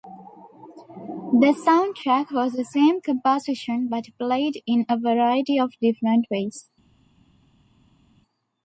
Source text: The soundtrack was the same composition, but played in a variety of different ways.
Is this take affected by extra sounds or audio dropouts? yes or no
no